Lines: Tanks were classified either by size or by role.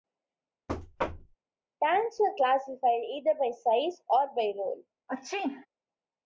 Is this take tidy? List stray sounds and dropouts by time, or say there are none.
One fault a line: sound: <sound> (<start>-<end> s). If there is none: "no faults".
sound: thud (0.7-1.4 s)
sound: sneeze (5.1-5.7 s)